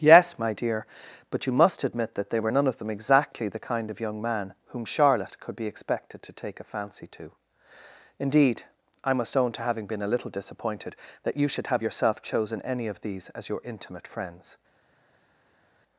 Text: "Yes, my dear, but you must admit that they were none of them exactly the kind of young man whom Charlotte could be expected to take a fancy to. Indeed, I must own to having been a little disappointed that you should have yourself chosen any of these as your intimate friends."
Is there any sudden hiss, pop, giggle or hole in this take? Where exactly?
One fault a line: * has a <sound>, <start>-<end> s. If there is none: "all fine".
all fine